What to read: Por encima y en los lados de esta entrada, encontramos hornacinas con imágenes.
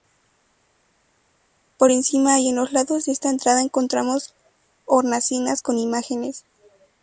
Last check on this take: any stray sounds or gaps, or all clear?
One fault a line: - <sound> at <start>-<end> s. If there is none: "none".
none